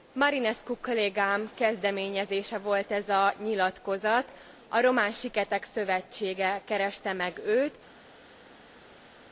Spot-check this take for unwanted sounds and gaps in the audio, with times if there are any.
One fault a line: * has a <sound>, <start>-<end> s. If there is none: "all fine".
all fine